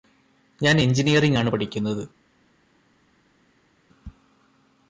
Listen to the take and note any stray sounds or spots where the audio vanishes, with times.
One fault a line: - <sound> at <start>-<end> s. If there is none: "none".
none